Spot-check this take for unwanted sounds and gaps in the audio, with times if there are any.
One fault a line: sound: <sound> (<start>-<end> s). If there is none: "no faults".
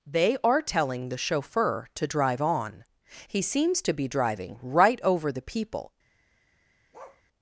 sound: bark (6.9-7.2 s)